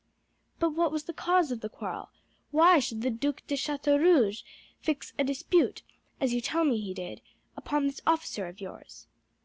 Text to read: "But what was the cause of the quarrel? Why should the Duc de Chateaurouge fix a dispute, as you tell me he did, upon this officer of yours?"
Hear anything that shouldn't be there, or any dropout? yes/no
no